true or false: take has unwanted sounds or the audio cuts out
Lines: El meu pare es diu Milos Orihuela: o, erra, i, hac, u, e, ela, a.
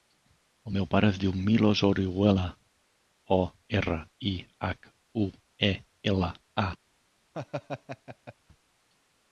true